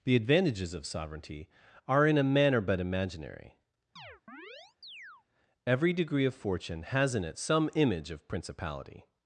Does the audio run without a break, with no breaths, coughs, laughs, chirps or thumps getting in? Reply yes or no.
no